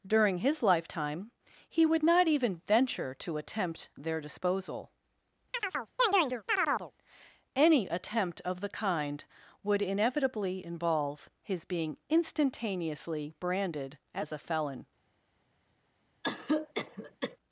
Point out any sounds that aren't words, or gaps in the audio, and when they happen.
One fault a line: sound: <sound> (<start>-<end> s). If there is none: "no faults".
sound: chirp (5.5-6.9 s)
sound: cough (16.2-17.4 s)